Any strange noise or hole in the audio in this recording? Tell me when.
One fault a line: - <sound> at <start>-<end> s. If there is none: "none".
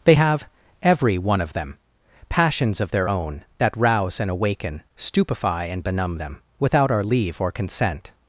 none